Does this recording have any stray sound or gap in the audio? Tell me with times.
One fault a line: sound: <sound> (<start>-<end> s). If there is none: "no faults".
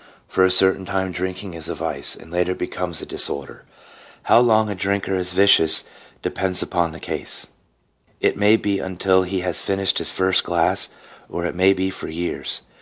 no faults